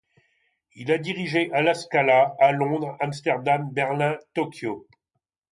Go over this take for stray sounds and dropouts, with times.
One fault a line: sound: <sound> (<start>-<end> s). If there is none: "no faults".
no faults